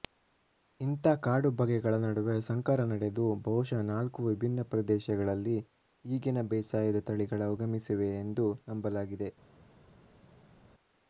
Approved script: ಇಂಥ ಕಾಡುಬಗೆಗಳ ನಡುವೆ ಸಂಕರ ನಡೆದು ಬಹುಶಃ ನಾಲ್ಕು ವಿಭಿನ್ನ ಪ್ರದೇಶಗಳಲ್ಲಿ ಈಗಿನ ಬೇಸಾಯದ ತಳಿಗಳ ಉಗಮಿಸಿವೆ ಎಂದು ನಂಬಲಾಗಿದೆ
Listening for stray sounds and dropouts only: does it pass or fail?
pass